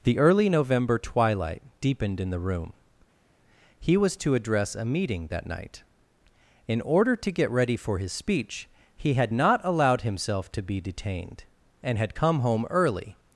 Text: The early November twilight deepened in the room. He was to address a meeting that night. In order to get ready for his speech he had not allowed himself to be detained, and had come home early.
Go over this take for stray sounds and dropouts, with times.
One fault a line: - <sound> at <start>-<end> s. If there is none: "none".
none